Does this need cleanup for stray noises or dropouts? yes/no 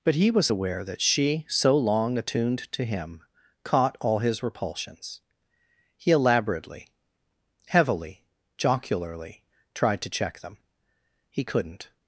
no